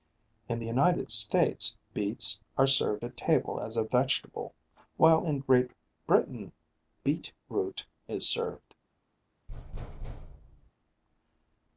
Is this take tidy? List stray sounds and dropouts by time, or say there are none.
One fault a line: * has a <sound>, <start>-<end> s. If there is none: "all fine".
* has a thud, 9.5-10.7 s